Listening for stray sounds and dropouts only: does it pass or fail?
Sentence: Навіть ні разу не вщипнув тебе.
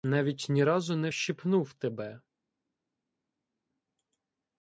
pass